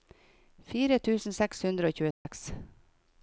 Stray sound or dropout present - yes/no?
yes